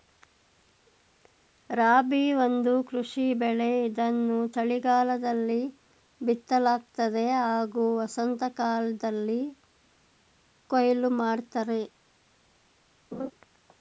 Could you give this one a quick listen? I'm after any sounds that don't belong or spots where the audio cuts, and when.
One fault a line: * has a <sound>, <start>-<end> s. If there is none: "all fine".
* has a laugh, 13.1-13.3 s